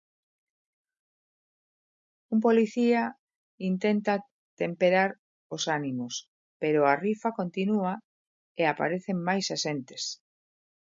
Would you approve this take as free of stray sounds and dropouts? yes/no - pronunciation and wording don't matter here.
yes